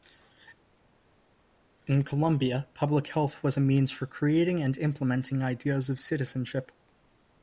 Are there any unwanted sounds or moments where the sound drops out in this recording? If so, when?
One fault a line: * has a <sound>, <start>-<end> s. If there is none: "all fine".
all fine